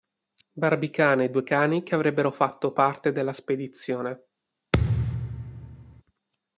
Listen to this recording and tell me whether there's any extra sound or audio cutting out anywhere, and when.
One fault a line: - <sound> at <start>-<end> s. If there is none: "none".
- thud at 4.7-6.0 s